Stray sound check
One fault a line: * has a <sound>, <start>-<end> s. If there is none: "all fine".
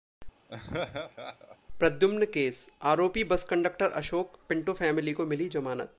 * has a laugh, 0.5-1.6 s